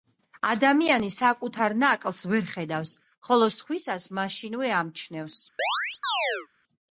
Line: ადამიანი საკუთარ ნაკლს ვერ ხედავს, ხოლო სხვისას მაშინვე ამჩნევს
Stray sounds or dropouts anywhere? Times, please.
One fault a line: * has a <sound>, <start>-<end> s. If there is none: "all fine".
* has a chirp, 5.6-6.5 s